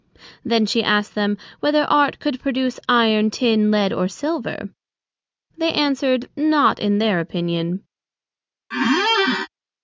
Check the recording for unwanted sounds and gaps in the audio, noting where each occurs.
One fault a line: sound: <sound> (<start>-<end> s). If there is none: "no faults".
sound: squeak (8.7-9.5 s)